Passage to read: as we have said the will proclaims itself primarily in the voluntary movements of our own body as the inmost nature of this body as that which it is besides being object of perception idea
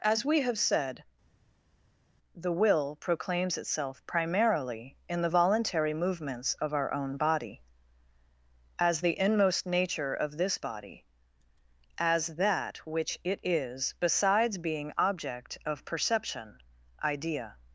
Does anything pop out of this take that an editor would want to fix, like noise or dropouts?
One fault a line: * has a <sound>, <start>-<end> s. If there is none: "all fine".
all fine